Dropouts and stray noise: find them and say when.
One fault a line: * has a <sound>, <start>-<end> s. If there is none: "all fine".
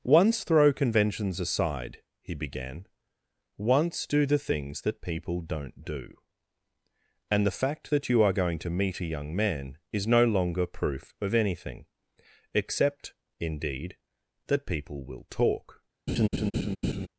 * has a laugh, 16.1-17.1 s